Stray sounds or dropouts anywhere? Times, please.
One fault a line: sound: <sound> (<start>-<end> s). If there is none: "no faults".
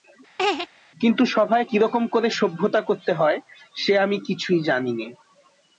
sound: laugh (0.4-0.7 s)